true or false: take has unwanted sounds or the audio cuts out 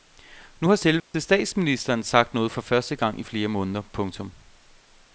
true